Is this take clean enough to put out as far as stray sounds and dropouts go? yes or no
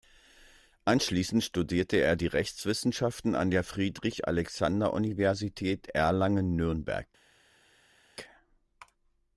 yes